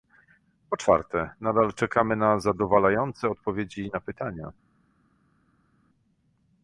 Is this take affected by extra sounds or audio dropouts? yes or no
no